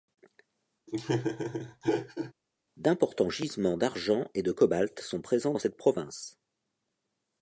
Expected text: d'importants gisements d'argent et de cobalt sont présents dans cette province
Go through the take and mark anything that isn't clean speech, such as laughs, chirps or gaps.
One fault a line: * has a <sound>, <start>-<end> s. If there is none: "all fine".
* has a laugh, 0.9-2.3 s